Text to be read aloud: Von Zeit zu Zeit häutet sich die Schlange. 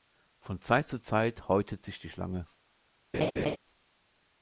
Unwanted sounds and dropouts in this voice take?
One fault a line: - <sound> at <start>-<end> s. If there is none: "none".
- laugh at 3.1-3.6 s